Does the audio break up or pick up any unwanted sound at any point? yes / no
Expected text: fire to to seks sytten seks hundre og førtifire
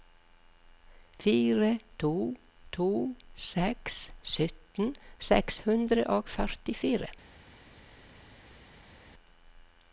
no